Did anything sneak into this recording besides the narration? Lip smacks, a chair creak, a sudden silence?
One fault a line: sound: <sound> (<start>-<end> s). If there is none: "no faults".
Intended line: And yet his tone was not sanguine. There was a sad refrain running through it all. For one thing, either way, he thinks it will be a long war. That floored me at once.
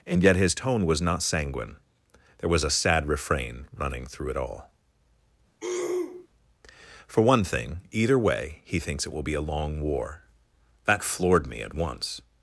sound: throat clearing (5.6-6.3 s)